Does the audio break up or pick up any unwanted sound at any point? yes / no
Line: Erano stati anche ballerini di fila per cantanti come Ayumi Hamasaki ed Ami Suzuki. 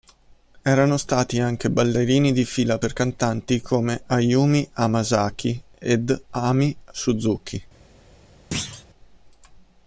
yes